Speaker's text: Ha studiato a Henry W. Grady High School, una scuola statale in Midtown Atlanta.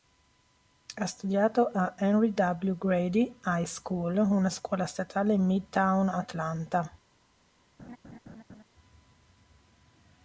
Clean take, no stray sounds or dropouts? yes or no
no